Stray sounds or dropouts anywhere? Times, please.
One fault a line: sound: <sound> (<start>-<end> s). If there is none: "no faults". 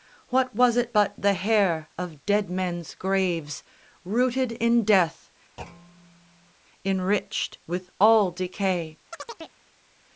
sound: thud (5.6-6.5 s)
sound: chirp (9.1-9.6 s)